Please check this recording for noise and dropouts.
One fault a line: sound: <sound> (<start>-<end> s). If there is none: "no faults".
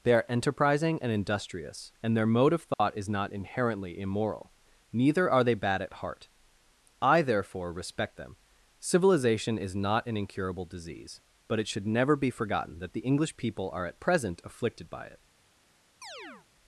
sound: dropout (2.7-2.8 s)
sound: chirp (16.0-16.5 s)